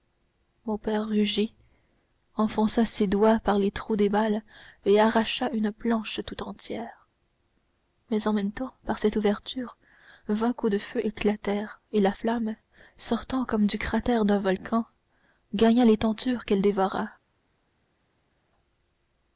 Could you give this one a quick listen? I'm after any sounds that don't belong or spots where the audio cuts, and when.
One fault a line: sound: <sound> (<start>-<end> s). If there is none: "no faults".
no faults